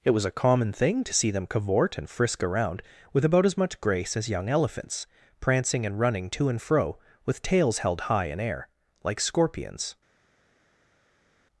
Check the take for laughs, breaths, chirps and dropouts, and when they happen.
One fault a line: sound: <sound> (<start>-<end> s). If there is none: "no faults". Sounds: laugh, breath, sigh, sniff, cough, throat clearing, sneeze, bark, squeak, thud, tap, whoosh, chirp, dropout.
no faults